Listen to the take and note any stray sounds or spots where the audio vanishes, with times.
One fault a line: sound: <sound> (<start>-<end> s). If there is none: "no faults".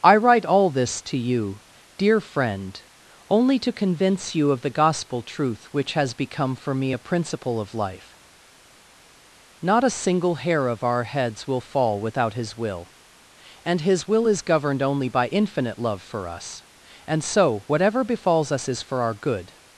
no faults